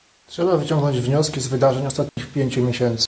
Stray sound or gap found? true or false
true